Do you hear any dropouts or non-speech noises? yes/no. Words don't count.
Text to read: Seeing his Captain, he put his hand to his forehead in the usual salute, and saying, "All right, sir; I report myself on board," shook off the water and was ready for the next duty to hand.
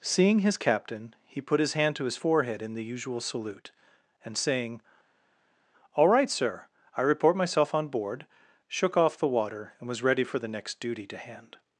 no